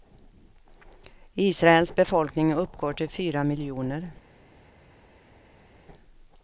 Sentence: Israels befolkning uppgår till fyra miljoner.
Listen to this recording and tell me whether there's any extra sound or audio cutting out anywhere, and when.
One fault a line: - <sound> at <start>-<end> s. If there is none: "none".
none